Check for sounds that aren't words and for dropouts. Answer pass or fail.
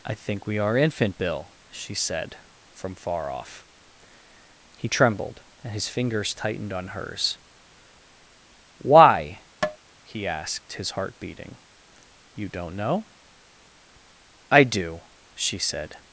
fail